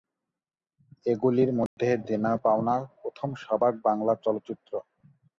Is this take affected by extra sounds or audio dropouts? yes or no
yes